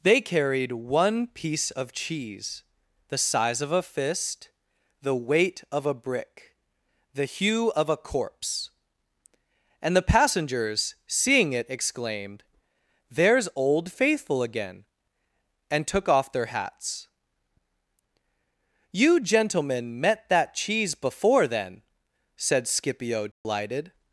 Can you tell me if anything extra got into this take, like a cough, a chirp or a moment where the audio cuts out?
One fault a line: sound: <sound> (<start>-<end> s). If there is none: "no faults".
sound: dropout (23.3-23.4 s)